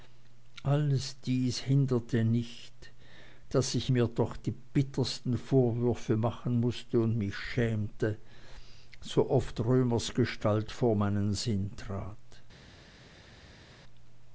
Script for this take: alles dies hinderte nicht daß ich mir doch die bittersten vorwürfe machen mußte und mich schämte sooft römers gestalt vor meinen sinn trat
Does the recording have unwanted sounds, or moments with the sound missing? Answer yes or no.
no